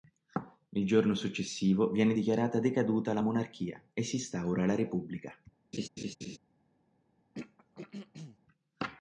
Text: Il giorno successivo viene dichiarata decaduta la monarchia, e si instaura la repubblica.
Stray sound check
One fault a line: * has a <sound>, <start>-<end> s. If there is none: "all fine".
* has a laugh, 5.7-6.4 s
* has a throat clearing, 7.3-8.4 s